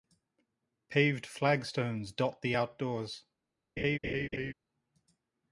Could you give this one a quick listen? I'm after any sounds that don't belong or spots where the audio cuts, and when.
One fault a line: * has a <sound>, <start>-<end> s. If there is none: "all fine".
* has a laugh, 3.8-4.5 s